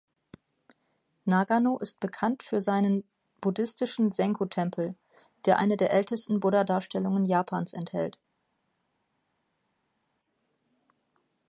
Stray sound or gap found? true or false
false